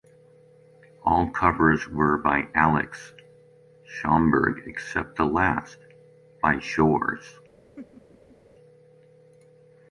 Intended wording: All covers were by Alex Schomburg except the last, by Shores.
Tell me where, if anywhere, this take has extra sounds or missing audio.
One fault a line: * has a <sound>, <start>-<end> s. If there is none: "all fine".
* has a laugh, 7.8-8.4 s